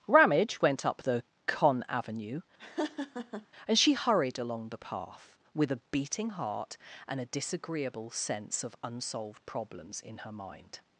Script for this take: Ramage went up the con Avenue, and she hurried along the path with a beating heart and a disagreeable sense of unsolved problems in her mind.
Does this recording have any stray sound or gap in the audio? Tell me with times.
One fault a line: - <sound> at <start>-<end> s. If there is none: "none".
- laugh at 2.6-3.5 s